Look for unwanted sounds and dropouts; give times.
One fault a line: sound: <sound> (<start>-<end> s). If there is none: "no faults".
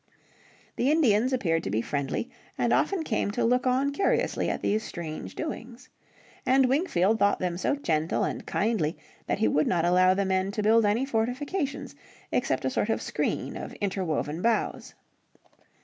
no faults